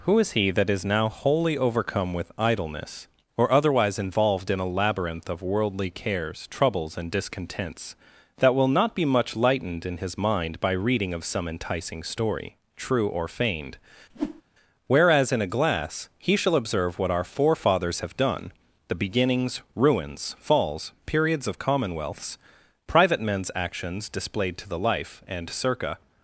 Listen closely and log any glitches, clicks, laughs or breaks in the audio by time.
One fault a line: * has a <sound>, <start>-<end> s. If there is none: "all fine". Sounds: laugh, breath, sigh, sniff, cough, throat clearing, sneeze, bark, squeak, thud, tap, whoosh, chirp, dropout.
* has a whoosh, 14.1-14.4 s